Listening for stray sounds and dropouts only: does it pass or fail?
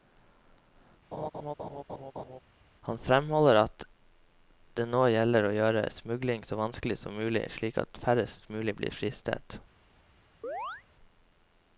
fail